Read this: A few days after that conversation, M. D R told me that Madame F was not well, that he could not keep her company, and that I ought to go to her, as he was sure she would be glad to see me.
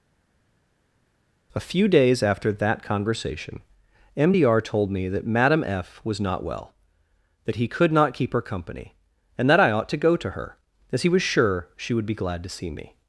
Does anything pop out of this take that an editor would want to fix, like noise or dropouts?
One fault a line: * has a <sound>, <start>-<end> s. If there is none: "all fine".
all fine